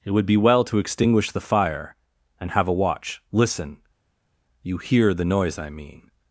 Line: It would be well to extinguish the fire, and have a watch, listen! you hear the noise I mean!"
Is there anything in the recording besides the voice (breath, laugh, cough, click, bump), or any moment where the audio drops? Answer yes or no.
no